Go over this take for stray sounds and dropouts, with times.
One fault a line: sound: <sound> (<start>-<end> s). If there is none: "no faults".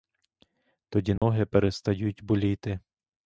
sound: dropout (1.2-1.2 s)